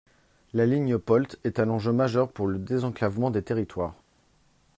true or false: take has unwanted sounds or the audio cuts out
false